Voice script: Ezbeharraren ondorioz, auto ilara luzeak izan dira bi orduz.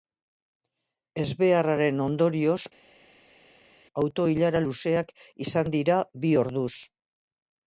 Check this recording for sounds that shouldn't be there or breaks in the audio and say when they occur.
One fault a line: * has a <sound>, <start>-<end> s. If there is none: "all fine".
all fine